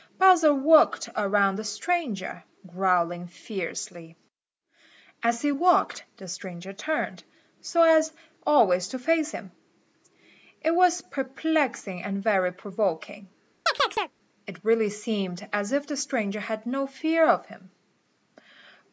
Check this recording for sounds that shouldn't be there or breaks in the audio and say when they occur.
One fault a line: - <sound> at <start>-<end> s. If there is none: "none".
- chirp at 13.7-14.1 s